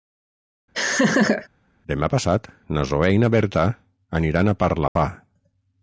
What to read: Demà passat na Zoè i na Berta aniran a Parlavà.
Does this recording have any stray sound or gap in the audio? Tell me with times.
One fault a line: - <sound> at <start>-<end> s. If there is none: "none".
- laugh at 0.7-1.5 s
- dropout at 4.9-5.0 s